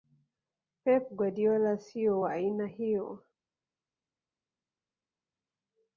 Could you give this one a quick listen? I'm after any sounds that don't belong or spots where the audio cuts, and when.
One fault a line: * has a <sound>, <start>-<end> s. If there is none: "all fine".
all fine